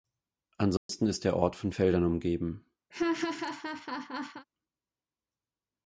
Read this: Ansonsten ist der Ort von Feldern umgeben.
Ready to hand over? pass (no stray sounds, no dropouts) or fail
fail